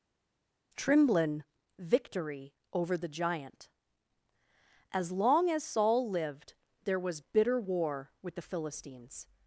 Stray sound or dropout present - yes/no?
no